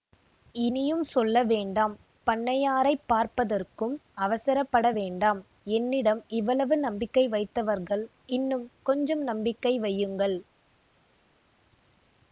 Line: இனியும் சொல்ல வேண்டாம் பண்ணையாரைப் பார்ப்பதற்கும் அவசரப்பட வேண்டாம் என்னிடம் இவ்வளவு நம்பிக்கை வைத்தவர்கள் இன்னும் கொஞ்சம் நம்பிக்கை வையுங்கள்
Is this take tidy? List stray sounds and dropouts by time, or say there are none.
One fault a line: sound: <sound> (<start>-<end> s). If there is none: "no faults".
no faults